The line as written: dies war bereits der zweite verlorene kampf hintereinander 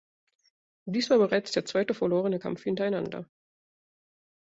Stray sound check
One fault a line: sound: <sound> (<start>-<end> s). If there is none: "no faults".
no faults